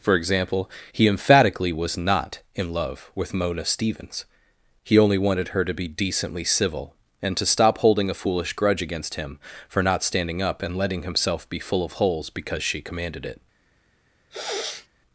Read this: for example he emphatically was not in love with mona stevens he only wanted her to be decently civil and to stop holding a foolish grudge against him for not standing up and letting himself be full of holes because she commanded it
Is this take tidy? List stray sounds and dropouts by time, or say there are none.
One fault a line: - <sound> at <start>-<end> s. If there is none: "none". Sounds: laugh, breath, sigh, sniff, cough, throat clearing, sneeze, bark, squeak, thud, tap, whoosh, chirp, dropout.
- sniff at 14.3-14.9 s